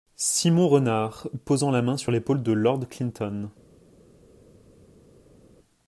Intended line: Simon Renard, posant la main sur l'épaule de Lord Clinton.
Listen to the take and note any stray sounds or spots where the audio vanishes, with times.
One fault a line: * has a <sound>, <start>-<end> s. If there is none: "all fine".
all fine